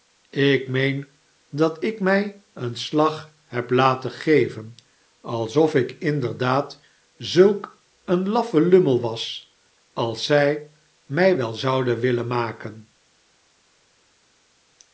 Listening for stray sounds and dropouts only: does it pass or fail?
pass